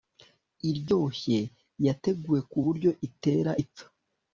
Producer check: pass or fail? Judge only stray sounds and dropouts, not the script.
pass